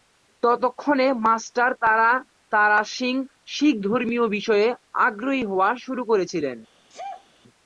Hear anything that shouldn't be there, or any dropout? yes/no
yes